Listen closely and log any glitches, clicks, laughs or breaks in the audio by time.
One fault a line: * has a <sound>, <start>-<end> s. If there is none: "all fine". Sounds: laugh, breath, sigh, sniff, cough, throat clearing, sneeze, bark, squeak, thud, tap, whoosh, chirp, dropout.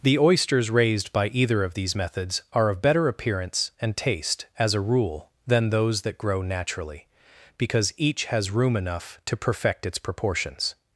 all fine